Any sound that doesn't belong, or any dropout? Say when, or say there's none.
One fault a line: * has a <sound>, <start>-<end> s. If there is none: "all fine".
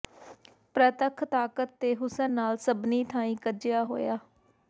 all fine